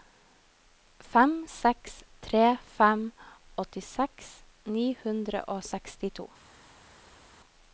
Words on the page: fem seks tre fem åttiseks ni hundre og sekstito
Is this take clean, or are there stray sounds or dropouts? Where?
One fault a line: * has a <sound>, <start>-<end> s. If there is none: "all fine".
all fine